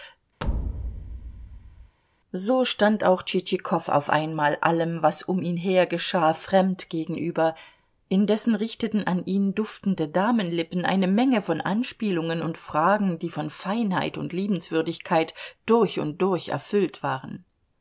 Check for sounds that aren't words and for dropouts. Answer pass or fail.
fail